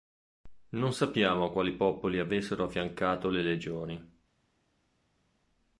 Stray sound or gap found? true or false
false